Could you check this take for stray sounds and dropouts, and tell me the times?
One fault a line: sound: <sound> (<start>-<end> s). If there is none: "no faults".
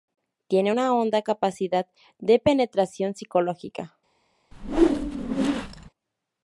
sound: whoosh (4.5-5.9 s)